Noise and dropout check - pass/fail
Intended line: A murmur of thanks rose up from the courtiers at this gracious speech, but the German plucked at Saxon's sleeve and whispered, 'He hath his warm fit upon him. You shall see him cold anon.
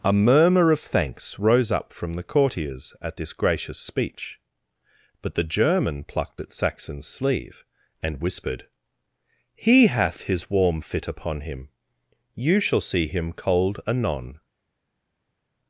pass